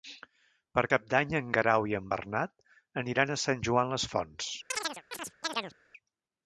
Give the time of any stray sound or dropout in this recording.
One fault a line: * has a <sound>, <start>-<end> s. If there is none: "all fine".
* has a chirp, 4.7-5.8 s